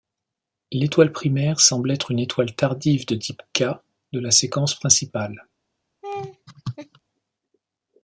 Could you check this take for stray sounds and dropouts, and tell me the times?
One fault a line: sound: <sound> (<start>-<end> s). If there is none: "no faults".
sound: laugh (6.0-7.0 s)